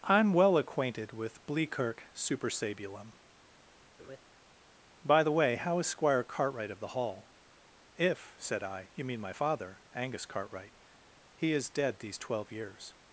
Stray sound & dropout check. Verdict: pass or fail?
fail